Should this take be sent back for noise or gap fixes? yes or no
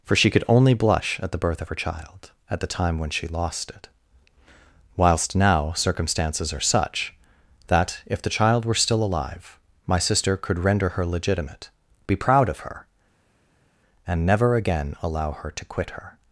no